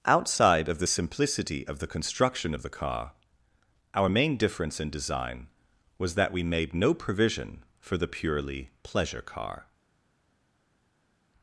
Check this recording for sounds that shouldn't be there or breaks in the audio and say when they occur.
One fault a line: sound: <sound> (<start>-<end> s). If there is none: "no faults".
no faults